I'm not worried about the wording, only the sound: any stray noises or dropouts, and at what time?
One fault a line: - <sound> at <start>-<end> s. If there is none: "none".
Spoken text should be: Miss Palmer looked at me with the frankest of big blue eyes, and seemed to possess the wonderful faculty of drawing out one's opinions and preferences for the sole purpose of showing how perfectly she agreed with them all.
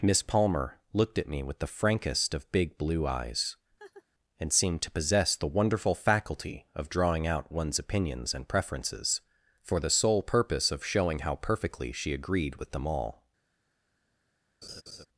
- laugh at 3.8-4.0 s
- laugh at 14.6-15.1 s